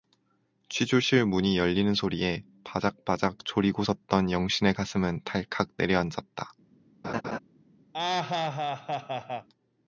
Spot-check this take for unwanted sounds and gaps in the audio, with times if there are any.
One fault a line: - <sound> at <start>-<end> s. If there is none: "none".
- laugh at 7.0-7.4 s
- laugh at 7.9-9.5 s